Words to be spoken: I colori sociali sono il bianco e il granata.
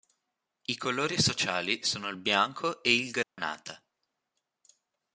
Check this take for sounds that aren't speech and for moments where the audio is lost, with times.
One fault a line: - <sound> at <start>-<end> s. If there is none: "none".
- dropout at 3.2-3.4 s